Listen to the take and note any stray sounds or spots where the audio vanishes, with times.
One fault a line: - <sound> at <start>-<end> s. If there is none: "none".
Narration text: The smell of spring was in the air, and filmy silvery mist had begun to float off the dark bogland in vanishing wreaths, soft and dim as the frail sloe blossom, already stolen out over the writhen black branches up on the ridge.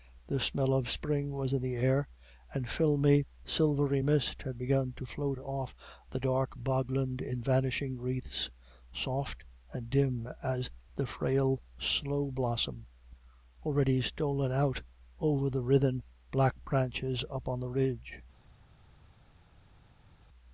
none